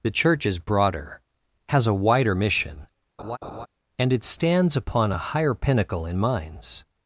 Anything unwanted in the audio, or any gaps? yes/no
yes